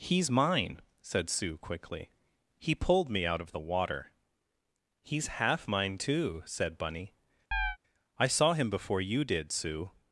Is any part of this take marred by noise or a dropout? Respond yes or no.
yes